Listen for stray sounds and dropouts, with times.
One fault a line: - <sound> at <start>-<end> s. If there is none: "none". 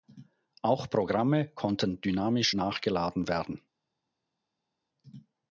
none